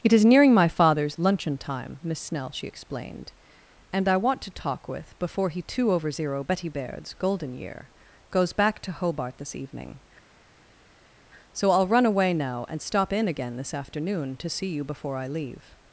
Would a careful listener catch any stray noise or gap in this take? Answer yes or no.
no